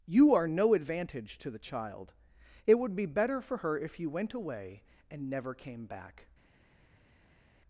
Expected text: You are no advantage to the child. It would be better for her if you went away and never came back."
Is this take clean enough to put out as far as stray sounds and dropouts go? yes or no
yes